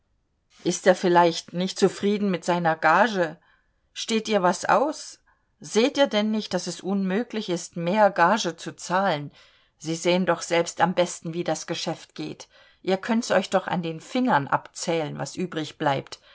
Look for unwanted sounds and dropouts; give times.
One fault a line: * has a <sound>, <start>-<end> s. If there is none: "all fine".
all fine